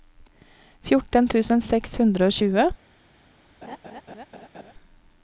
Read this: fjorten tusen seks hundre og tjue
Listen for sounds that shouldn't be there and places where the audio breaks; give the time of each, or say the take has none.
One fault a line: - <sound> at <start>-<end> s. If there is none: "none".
- laugh at 3.6-4.7 s